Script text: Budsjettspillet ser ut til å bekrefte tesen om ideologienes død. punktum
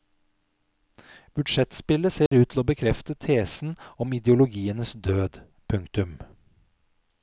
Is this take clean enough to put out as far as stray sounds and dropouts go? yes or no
no